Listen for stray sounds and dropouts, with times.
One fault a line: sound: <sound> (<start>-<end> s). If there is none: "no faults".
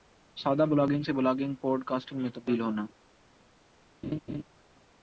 sound: laugh (4.0-4.4 s)